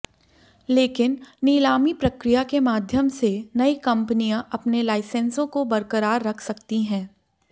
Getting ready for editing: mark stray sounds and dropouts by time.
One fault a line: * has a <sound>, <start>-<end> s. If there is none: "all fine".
all fine